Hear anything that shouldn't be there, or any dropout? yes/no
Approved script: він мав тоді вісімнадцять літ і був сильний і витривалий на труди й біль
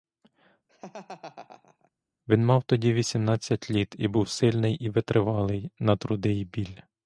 yes